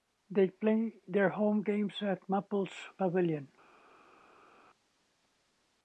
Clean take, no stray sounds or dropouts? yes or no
yes